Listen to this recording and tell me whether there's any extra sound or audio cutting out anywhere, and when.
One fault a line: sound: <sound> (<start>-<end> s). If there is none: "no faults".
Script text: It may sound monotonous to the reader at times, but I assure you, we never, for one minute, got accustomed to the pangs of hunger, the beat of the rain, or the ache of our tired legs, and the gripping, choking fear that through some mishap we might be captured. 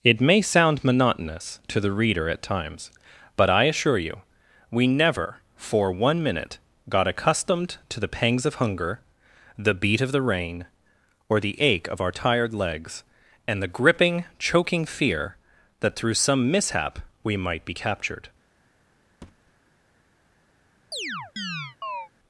sound: thud (19.2-19.5 s)
sound: chirp (20.9-22.1 s)